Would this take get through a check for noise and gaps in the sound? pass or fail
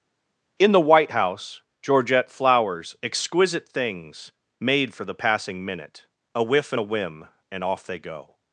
pass